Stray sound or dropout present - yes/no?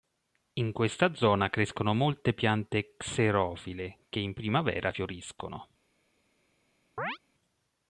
yes